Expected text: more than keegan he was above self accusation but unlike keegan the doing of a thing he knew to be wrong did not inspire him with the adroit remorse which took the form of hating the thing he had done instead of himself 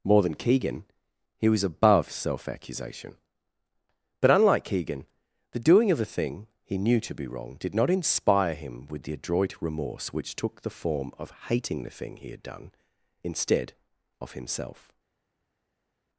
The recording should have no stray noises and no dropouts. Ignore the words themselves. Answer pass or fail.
pass